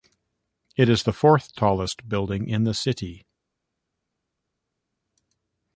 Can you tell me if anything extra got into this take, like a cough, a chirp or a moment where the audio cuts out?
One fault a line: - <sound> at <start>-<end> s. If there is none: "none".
none